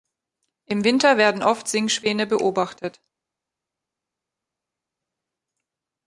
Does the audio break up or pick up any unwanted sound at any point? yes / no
no